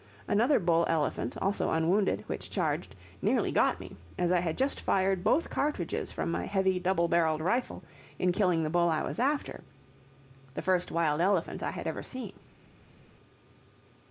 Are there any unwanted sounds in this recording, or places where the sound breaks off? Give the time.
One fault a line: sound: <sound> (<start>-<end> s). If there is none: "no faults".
no faults